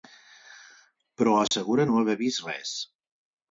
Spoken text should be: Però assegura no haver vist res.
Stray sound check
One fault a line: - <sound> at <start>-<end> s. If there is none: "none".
- dropout at 1.5-1.5 s